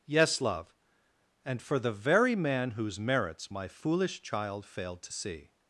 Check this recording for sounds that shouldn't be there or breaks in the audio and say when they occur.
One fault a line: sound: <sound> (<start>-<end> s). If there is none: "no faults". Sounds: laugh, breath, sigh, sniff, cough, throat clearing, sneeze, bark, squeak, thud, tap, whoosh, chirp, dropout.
no faults